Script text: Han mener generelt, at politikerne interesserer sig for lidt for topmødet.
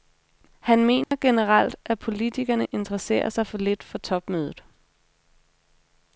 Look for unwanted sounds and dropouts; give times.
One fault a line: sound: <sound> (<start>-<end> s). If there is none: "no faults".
sound: dropout (1.0-1.1 s)